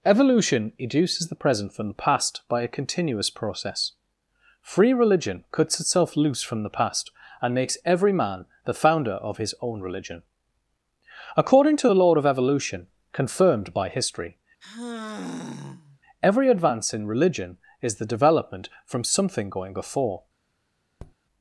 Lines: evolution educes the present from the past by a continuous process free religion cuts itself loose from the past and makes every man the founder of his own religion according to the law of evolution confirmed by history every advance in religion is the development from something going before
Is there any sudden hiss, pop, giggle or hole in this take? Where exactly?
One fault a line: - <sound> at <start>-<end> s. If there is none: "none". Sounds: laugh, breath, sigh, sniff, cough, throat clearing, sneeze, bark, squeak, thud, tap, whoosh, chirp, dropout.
- sigh at 14.6-16.0 s
- tap at 21.0-21.2 s